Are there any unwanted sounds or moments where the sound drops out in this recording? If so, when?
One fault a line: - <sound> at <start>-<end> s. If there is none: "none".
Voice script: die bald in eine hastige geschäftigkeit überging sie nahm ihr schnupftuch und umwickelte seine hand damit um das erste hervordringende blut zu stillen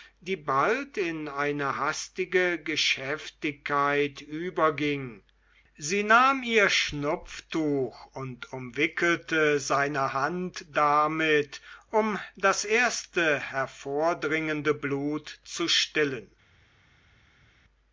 none